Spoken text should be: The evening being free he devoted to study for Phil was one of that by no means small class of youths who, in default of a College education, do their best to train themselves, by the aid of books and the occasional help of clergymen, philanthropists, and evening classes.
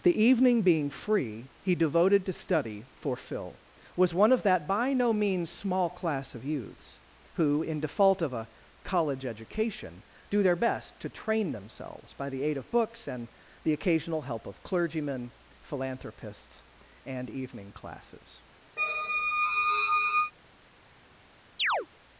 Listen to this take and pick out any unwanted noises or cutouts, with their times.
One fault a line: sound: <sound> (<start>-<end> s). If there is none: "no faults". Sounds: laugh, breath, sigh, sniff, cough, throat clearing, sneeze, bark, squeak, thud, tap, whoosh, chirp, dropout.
sound: squeak (18.8-20.3 s)
sound: chirp (21.6-21.9 s)